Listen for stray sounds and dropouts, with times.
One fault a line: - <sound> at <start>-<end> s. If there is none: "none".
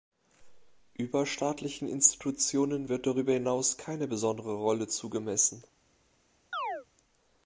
- chirp at 6.5-6.9 s